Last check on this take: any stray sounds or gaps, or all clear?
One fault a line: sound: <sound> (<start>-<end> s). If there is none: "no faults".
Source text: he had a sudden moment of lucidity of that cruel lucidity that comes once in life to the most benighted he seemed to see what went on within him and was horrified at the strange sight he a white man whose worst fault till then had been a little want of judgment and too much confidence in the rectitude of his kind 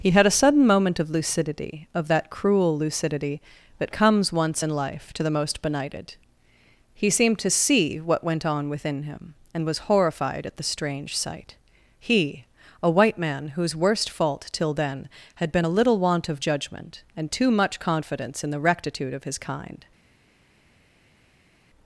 no faults